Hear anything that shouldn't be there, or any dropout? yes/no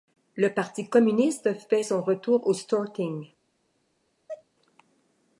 yes